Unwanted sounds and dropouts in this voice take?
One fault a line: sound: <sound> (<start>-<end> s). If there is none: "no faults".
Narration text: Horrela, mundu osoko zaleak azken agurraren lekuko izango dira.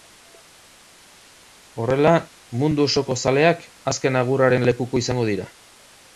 no faults